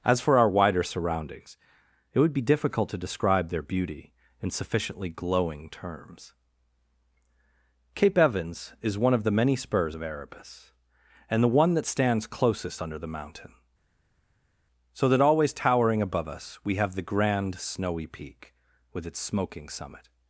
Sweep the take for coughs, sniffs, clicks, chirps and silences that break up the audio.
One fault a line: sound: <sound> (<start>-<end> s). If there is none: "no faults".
no faults